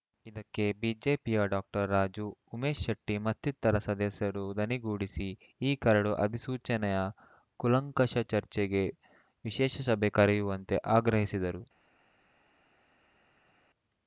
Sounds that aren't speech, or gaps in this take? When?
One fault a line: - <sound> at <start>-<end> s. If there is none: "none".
none